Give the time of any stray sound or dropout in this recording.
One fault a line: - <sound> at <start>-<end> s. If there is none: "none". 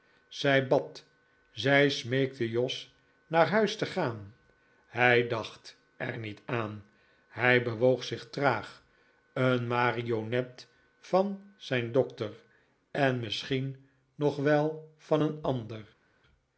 none